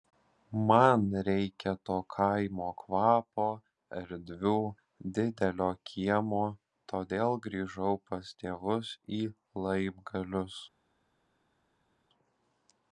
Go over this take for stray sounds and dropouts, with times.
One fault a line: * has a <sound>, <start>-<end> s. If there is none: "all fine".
all fine